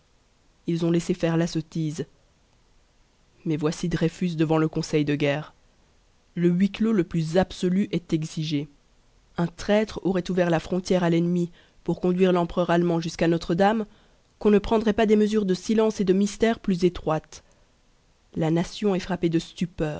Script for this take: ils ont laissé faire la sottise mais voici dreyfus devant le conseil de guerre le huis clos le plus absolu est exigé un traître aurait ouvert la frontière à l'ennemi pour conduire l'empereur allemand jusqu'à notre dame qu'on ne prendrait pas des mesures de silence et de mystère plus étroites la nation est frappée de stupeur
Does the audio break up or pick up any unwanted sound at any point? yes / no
no